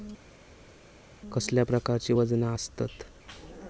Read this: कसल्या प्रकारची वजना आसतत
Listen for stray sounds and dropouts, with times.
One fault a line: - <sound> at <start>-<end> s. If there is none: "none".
none